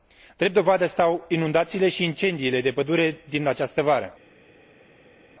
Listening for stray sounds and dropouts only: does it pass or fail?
pass